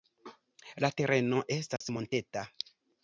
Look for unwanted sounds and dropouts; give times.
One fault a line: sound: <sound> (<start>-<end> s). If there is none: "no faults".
sound: dropout (1.8-1.8 s)